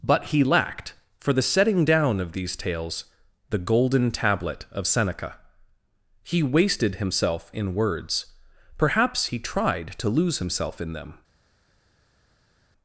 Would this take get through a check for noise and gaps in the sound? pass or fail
pass